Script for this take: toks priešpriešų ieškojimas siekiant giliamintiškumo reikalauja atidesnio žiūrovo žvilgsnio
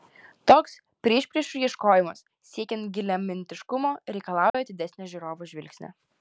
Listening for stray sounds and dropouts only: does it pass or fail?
fail